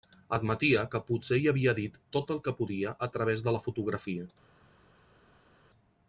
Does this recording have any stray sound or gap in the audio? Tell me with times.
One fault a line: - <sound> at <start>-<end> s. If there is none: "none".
none